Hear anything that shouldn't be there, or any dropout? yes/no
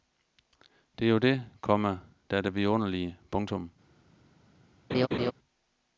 yes